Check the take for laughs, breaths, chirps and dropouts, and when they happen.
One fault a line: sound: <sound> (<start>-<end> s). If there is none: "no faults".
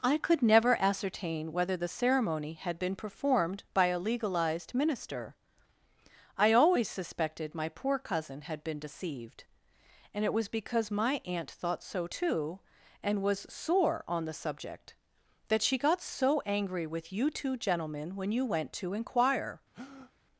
sound: breath (19.7-20.1 s)